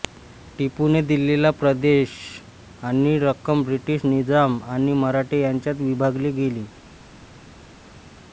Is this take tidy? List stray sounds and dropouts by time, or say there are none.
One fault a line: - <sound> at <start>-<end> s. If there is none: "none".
none